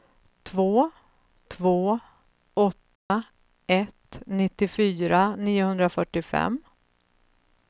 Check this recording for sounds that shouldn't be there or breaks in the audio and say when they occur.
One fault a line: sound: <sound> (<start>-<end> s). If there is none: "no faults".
sound: dropout (3.0-3.1 s)